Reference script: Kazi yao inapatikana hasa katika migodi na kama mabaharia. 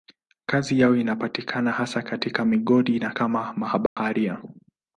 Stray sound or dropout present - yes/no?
yes